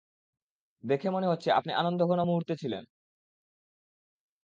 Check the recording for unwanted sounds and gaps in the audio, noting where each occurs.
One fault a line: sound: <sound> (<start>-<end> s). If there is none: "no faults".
no faults